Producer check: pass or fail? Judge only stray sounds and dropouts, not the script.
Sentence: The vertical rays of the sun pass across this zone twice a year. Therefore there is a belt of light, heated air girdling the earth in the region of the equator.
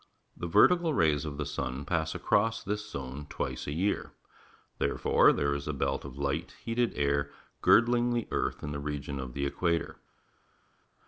pass